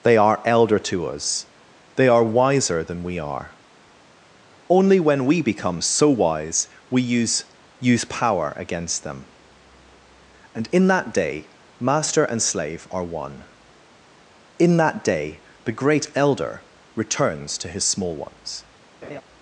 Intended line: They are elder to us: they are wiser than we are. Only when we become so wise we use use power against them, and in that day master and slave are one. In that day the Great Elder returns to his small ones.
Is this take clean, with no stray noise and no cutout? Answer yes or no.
no